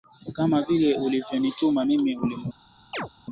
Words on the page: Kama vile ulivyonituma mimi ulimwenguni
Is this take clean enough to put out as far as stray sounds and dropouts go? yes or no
no